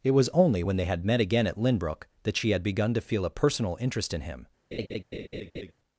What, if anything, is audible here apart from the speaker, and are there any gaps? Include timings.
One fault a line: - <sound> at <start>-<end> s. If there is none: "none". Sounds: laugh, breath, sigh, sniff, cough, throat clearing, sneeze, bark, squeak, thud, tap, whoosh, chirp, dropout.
- laugh at 4.7-5.7 s